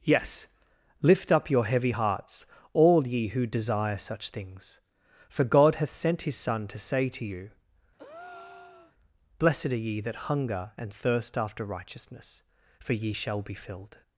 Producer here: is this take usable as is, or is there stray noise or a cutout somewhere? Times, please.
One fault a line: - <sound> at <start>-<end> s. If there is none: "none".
- breath at 8.0-8.9 s